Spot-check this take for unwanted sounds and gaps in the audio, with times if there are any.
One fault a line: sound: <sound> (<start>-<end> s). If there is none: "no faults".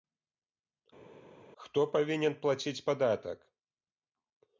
no faults